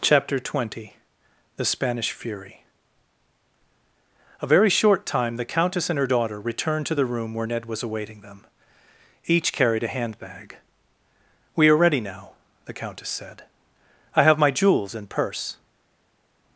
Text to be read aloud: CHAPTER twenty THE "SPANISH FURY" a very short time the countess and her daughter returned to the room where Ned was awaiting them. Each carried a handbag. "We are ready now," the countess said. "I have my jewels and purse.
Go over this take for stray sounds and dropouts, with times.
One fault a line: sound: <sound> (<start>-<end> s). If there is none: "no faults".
no faults